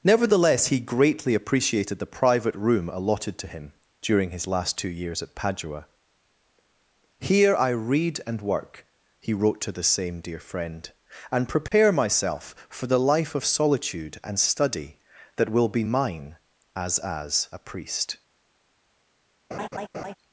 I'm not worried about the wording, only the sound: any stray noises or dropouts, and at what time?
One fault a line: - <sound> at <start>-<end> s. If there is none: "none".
- dropout at 11.7-11.7 s
- laugh at 19.5-20.1 s